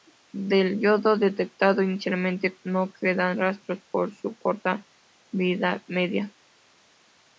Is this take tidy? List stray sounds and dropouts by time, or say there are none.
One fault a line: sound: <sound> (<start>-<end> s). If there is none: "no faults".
no faults